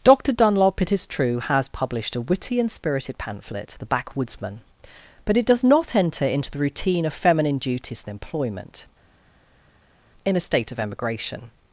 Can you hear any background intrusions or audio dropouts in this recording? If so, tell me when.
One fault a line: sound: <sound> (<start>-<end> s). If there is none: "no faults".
no faults